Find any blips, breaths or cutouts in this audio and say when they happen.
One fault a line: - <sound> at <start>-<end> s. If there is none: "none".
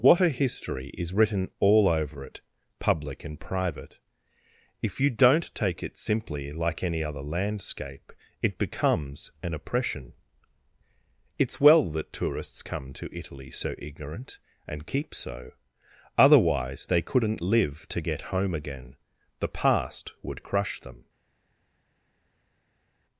none